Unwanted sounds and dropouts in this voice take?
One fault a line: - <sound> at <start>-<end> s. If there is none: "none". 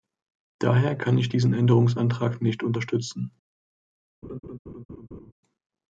- laugh at 4.2-5.3 s